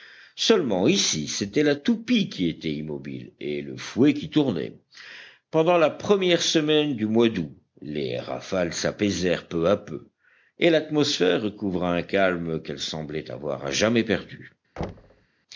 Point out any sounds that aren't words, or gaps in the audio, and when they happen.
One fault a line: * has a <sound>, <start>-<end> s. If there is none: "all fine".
* has a thud, 14.8-15.3 s